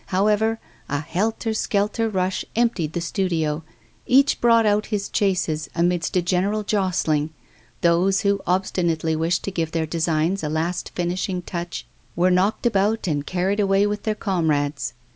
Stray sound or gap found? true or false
false